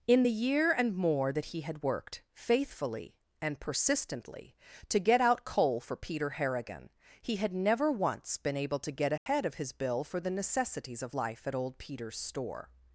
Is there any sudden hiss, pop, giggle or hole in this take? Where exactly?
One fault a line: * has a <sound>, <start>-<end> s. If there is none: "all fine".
* has a dropout, 9.2-9.3 s